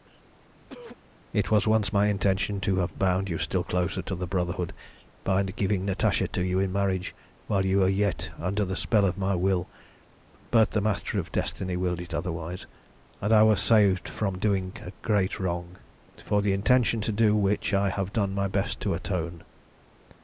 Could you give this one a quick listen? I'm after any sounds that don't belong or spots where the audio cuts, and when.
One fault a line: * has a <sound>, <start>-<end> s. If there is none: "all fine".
* has a cough, 0.6-1.0 s